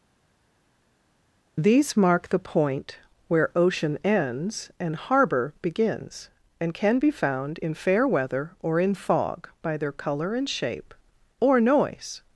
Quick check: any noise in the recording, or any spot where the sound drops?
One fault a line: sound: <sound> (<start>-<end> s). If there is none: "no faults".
no faults